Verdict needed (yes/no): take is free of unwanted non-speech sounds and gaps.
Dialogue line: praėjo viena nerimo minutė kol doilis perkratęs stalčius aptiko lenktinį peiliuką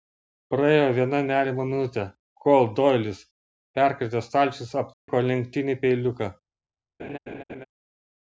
no